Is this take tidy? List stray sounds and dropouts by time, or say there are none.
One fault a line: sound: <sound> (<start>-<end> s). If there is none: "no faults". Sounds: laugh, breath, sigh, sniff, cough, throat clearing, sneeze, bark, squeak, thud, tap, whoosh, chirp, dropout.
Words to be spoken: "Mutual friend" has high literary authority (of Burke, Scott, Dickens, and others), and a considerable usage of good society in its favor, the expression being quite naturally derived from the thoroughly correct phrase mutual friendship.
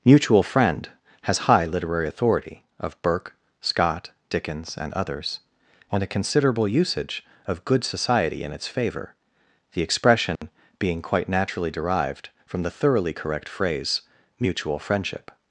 sound: dropout (10.4-10.4 s)